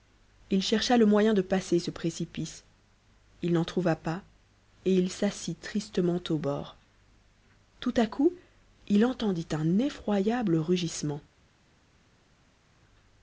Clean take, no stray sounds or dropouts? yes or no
yes